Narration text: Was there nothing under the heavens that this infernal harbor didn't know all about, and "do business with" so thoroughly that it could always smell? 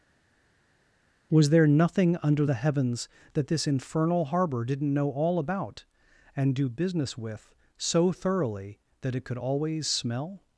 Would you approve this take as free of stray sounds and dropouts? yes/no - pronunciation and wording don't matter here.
yes